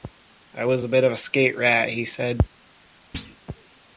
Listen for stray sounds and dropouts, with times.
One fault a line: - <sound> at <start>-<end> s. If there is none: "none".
- thud at 3.1-3.4 s